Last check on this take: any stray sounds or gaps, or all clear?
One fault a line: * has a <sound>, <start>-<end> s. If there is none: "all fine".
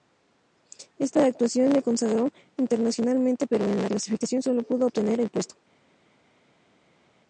all fine